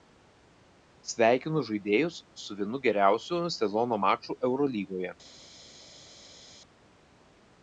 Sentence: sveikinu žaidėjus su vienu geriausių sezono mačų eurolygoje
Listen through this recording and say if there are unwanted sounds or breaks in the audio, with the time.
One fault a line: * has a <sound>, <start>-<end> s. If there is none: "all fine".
all fine